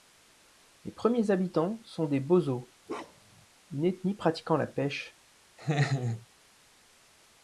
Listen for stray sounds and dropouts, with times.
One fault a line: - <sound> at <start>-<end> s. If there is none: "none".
- bark at 2.9-3.5 s
- laugh at 5.6-6.3 s